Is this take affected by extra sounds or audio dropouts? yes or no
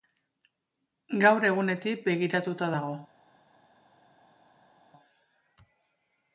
no